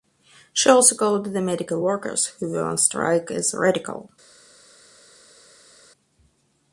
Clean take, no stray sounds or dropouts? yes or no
yes